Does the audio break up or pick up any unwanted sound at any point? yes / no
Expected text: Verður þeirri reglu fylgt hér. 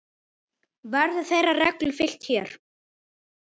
no